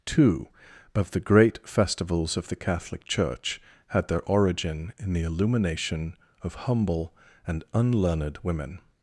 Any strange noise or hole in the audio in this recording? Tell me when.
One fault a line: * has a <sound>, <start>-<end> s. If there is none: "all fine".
all fine